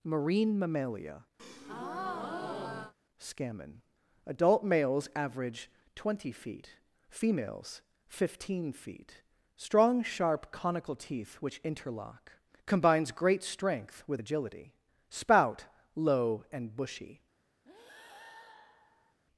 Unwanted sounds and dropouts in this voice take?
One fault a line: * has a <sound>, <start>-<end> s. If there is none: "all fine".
* has a breath, 1.4-2.9 s
* has a breath, 17.6-19.2 s